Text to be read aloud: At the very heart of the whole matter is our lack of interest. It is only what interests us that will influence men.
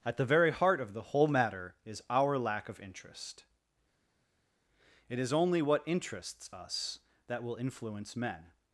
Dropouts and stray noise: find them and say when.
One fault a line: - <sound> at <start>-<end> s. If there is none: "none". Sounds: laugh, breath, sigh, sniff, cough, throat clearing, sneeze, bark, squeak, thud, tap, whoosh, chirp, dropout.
none